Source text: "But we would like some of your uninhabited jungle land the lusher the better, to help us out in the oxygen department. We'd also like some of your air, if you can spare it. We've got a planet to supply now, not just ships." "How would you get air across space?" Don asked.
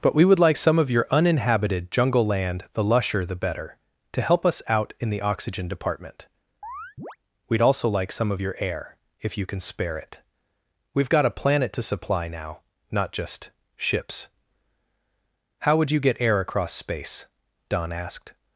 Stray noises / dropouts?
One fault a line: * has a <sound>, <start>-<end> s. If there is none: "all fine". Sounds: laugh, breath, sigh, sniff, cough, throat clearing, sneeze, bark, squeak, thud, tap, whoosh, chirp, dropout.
* has a chirp, 6.6-7.2 s